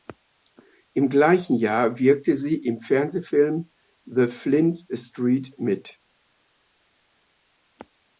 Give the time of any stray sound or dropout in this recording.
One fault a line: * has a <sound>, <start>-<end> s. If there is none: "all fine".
all fine